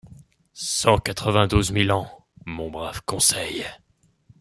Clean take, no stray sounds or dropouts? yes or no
yes